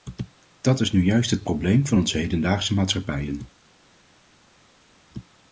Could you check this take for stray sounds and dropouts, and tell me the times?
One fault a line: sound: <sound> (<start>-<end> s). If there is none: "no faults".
no faults